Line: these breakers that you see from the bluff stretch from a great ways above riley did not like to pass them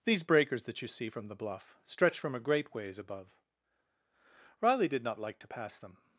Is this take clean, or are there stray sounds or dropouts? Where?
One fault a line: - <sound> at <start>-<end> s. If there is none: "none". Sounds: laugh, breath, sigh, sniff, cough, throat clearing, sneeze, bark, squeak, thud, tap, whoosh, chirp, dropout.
none